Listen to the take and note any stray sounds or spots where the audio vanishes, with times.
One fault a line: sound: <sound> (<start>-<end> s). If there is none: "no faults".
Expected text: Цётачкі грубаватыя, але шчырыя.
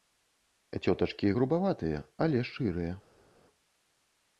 no faults